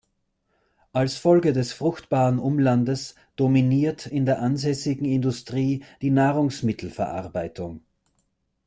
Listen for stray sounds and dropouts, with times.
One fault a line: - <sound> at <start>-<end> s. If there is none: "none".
none